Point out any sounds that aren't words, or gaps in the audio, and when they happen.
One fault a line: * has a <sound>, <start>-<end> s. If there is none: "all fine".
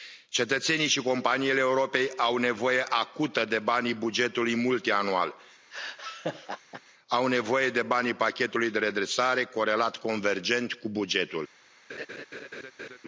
* has a laugh, 5.7-6.8 s
* has a laugh, 11.9-13.0 s